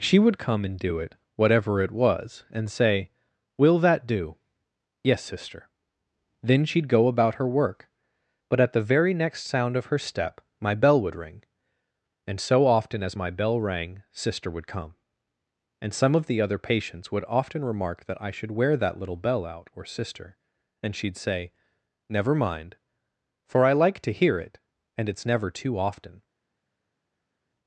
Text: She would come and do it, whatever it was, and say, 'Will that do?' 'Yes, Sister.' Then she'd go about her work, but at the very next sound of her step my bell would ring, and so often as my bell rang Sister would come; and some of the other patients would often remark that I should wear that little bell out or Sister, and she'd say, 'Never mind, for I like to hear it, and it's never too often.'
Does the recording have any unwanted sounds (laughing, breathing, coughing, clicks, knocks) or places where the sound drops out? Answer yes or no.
no